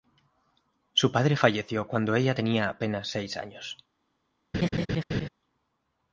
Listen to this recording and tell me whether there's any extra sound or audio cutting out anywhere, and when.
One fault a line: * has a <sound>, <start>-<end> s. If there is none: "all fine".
* has a laugh, 4.5-5.3 s